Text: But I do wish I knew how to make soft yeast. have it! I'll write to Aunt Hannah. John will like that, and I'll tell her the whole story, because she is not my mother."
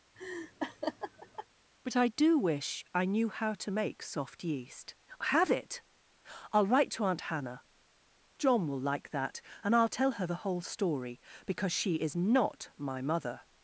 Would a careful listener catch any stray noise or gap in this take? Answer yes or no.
yes